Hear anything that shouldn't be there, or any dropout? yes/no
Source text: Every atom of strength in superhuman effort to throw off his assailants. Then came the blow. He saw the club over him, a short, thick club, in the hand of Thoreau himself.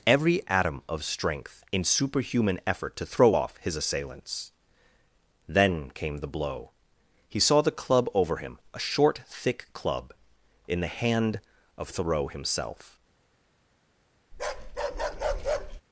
yes